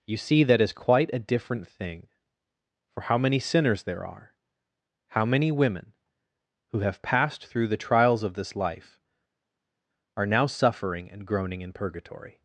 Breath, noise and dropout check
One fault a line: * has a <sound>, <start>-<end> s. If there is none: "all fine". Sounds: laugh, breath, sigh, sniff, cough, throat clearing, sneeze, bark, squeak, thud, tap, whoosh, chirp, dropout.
all fine